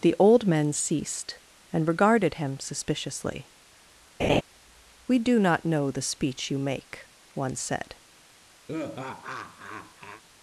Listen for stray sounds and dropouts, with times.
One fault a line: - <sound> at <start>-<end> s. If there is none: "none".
- laugh at 4.2-4.4 s
- laugh at 8.7-10.2 s